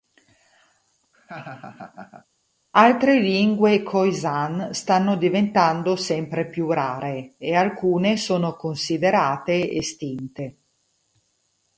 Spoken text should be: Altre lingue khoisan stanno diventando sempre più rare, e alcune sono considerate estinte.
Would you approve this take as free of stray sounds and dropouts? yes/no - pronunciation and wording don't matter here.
no